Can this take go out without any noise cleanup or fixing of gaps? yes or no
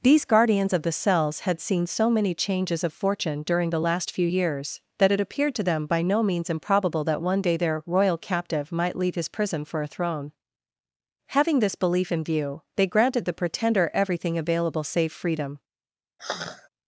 no